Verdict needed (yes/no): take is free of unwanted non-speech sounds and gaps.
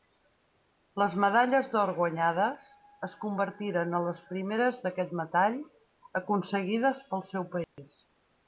no